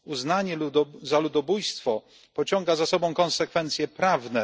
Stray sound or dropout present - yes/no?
no